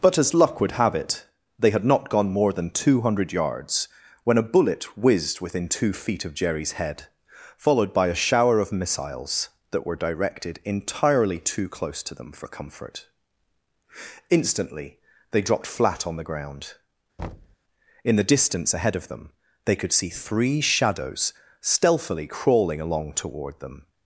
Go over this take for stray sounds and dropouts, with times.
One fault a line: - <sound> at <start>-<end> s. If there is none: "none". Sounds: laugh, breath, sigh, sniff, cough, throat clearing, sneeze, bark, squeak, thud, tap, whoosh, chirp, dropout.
- thud at 17.2-17.6 s